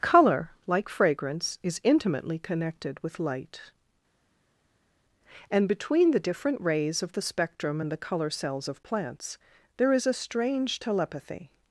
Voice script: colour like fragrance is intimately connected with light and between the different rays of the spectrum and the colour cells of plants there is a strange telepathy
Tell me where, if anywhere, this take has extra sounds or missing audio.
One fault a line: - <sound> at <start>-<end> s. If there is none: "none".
none